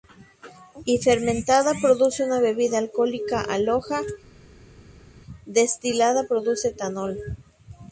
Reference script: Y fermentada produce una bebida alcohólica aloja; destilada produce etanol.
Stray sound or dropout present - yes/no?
no